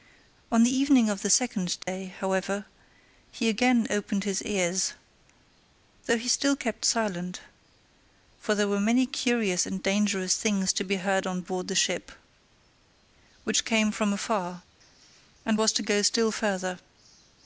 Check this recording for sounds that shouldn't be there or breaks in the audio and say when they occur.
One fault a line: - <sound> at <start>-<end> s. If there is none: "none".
- dropout at 1.8-1.9 s